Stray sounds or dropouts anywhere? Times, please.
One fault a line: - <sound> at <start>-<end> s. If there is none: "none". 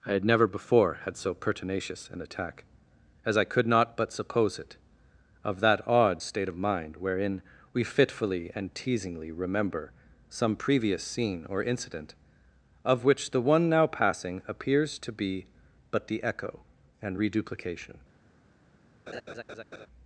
- laugh at 19.1-19.9 s